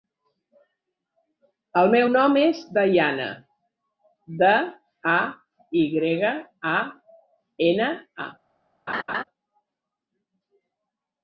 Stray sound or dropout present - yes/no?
yes